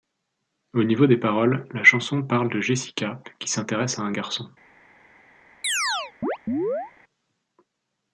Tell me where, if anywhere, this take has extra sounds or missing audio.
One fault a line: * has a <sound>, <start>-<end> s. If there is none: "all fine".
* has a chirp, 5.6-6.9 s